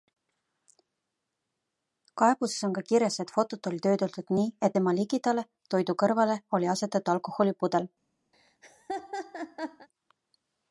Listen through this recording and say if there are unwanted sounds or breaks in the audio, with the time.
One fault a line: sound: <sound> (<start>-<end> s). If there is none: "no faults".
sound: laugh (8.3-9.9 s)